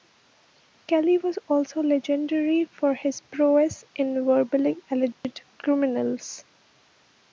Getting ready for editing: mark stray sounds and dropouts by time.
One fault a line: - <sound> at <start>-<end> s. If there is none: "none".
- dropout at 5.1-5.2 s